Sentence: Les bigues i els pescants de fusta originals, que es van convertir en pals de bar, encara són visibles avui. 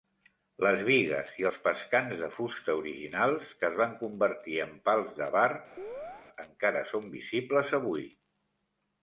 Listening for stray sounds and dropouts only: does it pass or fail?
fail